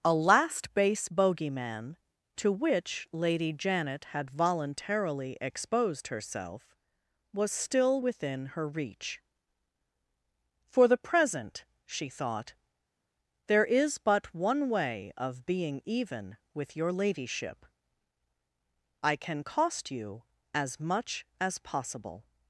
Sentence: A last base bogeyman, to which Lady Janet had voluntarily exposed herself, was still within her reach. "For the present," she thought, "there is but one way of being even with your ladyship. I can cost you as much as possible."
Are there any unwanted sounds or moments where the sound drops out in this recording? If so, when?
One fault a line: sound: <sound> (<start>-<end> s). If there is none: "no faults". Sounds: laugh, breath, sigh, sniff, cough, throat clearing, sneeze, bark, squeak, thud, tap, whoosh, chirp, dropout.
no faults